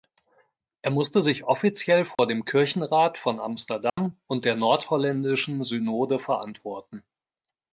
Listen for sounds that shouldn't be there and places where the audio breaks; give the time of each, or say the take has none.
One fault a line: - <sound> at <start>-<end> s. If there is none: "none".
- dropout at 2.1-2.2 s
- dropout at 3.9-4.0 s